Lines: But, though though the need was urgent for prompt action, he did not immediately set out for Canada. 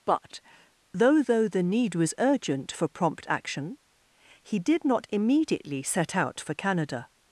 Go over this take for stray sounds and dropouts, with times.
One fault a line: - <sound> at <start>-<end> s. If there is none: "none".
none